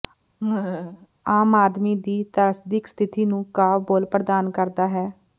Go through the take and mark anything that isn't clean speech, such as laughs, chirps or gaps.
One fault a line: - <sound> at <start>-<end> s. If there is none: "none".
- laugh at 0.4-1.1 s